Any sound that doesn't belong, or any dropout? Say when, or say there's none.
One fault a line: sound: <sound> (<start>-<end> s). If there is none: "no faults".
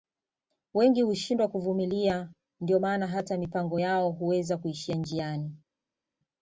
no faults